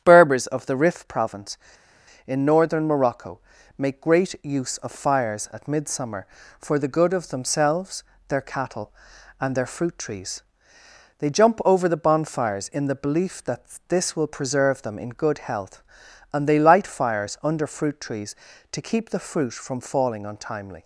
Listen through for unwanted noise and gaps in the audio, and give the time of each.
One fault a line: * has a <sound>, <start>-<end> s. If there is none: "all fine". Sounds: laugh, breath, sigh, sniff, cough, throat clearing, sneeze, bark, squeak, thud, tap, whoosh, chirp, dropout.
all fine